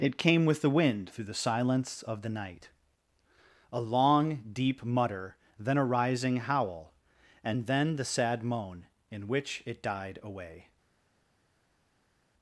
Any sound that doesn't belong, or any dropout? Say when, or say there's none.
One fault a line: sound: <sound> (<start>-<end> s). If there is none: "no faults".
no faults